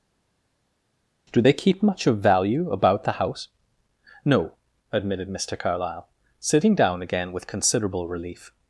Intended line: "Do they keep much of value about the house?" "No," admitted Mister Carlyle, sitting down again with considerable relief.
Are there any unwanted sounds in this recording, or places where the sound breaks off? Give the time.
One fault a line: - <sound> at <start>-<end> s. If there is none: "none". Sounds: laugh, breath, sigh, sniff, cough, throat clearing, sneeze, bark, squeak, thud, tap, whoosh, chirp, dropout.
none